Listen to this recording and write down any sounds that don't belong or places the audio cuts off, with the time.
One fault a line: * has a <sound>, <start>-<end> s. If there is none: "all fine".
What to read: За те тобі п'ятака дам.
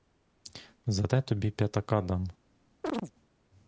* has a chirp, 2.8-3.1 s